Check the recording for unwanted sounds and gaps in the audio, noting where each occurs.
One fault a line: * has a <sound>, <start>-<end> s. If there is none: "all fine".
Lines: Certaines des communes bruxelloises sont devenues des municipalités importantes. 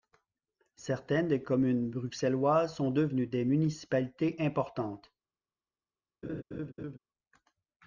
* has a laugh, 6.2-7.0 s